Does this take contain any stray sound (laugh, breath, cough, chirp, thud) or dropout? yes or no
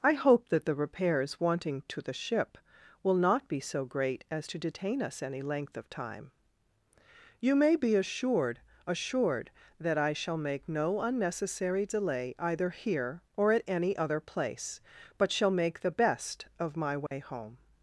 yes